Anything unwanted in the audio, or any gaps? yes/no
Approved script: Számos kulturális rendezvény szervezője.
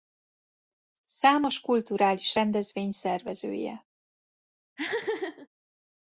yes